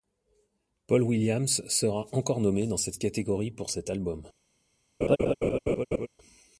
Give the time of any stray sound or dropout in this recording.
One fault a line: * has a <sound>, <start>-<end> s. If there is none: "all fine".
* has a laugh, 5.0-6.1 s